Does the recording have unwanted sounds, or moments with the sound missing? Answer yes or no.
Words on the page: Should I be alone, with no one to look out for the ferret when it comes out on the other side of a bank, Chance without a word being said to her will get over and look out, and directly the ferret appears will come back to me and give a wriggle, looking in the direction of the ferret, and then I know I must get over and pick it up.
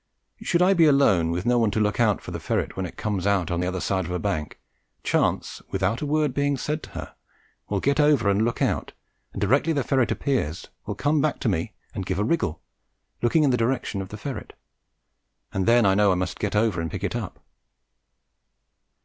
no